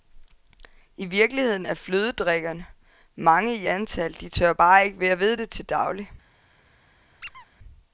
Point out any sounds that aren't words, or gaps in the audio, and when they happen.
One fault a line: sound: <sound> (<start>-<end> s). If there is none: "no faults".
sound: squeak (7.2-7.5 s)